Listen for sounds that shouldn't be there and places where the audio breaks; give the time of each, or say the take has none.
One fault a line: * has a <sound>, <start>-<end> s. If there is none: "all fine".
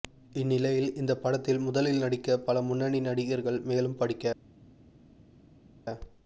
all fine